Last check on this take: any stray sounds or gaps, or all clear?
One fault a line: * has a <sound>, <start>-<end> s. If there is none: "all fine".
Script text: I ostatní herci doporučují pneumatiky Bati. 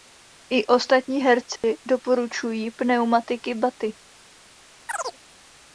* has a dropout, 1.6-1.6 s
* has a chirp, 4.9-5.2 s